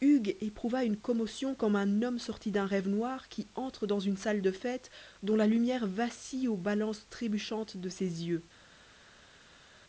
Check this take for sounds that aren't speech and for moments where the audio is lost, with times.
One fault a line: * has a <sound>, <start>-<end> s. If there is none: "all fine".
all fine